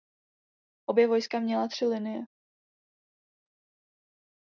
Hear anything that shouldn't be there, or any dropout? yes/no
no